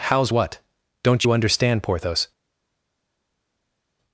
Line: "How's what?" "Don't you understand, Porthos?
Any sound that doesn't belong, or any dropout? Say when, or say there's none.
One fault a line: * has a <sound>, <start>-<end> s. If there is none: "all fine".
all fine